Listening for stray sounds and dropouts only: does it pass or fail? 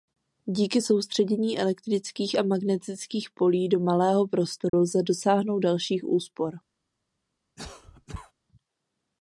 fail